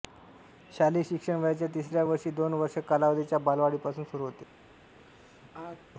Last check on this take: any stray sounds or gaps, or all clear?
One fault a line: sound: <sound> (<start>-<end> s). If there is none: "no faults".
sound: sneeze (5.0-5.8 s)